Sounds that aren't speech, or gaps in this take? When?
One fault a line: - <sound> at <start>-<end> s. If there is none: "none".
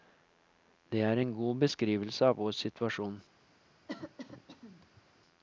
- cough at 3.9-5.0 s